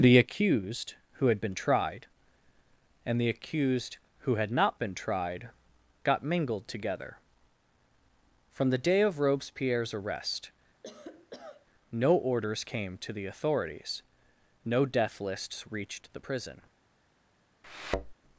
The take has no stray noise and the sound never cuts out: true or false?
false